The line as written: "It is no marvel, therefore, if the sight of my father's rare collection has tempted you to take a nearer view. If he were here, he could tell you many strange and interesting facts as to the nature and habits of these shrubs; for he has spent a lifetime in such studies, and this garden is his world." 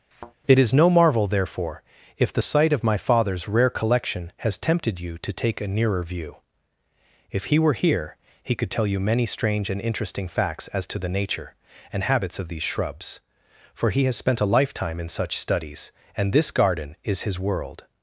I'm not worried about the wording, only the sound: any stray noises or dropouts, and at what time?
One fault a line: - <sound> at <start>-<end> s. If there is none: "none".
- thud at 0.1-0.3 s